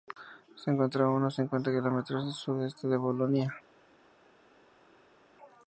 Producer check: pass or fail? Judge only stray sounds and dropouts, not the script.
pass